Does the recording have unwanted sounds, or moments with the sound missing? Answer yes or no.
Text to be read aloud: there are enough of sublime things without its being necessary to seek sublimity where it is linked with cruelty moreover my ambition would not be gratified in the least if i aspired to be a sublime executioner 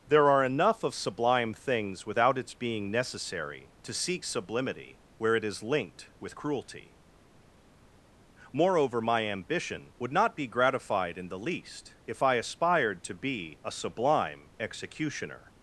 no